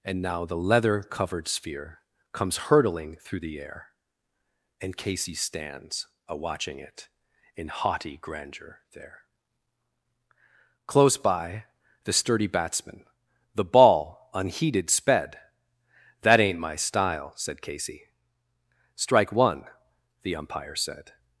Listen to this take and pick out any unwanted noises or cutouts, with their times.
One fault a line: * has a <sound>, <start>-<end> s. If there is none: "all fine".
all fine